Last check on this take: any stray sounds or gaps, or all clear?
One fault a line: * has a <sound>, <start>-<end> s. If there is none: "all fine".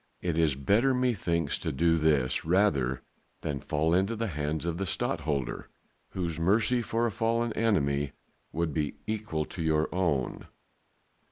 all fine